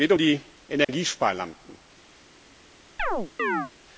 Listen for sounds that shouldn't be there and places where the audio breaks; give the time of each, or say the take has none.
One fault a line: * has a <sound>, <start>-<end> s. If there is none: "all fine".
* has a dropout, 0.8-0.9 s
* has a chirp, 3.0-3.7 s